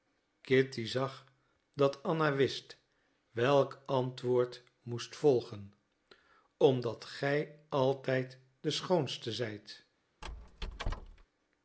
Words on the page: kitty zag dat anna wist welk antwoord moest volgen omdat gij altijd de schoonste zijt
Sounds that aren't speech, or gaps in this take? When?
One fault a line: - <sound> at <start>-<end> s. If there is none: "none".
- squeak at 10.2-11.3 s